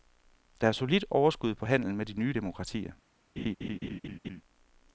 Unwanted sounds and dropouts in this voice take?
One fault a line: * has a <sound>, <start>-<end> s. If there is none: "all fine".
* has a laugh, 3.4-4.4 s